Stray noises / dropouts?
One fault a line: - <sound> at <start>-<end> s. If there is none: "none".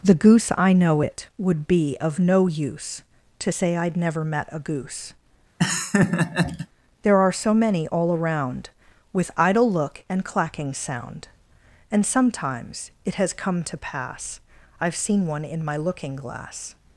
- laugh at 5.6-6.7 s